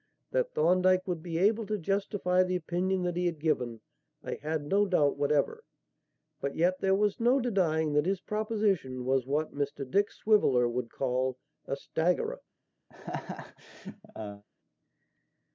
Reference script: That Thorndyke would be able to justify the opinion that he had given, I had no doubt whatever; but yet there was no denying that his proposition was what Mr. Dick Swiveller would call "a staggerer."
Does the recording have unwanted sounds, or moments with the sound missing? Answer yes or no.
yes